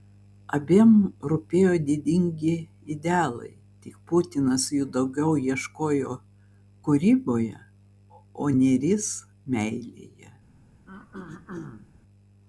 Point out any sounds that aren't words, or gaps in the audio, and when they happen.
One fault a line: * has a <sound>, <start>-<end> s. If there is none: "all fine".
* has a throat clearing, 10.9-11.9 s